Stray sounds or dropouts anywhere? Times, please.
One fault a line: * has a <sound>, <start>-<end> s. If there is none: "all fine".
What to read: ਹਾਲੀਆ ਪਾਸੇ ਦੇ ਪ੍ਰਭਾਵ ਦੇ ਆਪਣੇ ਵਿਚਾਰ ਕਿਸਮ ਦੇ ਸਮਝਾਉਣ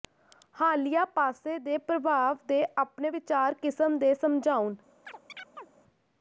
* has a chirp, 5.1-5.7 s